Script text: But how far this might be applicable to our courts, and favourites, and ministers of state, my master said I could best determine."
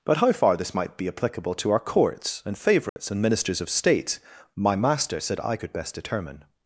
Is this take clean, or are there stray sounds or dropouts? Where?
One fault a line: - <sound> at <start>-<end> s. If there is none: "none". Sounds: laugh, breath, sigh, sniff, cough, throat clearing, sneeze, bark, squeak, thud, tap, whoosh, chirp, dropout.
- dropout at 2.9-3.0 s